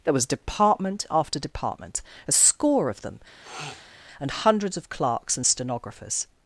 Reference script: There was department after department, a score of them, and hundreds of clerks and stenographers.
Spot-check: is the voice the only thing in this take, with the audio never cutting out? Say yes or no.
no